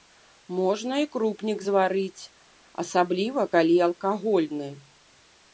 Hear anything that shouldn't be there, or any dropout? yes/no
no